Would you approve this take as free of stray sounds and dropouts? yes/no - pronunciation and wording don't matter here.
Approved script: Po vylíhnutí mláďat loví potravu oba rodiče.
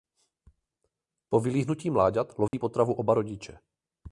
no